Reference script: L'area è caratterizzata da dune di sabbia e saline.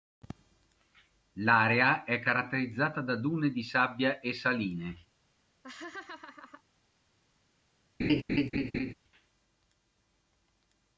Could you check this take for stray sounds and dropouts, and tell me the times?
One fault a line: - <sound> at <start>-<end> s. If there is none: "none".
- laugh at 5.6-6.6 s
- laugh at 8.0-8.9 s